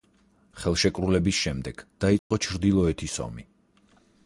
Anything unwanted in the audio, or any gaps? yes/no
yes